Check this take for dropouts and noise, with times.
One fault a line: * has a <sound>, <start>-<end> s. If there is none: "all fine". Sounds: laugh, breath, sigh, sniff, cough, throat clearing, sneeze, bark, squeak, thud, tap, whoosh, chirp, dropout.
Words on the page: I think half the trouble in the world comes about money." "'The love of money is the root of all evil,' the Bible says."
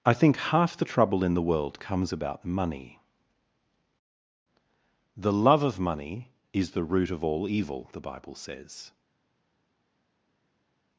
all fine